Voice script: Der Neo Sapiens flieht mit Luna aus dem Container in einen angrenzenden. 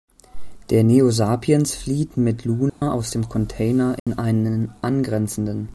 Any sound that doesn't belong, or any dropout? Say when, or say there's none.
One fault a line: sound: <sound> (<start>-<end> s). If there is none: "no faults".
sound: dropout (2.7-2.8 s)
sound: dropout (4.0-4.1 s)